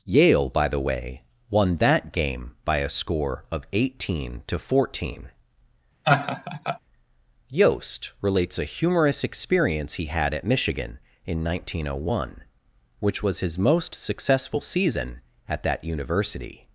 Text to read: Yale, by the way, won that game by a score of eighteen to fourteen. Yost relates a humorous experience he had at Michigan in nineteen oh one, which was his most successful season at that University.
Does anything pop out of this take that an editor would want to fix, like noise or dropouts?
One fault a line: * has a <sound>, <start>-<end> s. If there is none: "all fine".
* has a laugh, 6.0-6.8 s